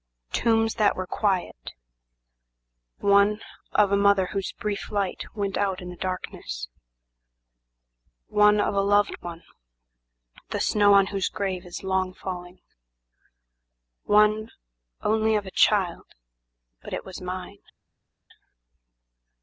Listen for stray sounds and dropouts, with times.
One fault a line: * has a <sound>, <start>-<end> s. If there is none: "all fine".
all fine